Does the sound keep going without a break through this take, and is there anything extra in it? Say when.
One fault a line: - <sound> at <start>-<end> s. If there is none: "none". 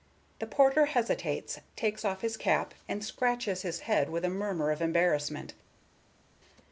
none